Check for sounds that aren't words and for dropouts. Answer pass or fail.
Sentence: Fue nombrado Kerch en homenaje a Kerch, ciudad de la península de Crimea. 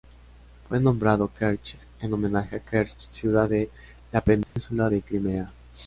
fail